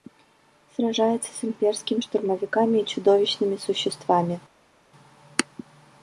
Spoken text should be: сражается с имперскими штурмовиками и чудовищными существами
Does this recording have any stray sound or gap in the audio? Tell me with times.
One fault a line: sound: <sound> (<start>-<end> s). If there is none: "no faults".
no faults